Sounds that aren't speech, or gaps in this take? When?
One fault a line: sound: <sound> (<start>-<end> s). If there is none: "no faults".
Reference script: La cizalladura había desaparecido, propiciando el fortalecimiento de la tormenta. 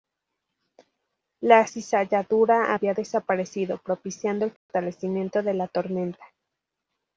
sound: dropout (4.6-4.7 s)